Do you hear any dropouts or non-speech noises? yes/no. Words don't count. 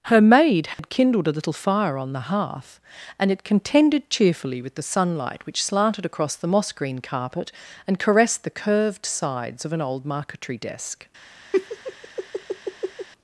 yes